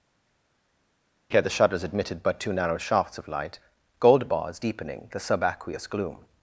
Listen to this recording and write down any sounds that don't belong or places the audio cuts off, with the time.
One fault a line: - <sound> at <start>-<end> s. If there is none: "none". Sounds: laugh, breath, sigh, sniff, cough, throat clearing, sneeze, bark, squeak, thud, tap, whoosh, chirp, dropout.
none